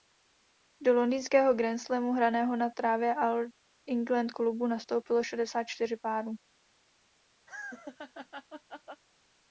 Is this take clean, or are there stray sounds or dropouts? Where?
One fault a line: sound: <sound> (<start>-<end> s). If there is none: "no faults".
sound: laugh (7.5-9.0 s)